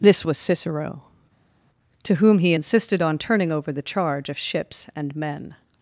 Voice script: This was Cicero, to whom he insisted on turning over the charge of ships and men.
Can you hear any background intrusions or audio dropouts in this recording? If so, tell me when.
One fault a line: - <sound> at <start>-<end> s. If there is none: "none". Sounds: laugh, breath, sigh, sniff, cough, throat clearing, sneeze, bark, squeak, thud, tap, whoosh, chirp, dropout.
none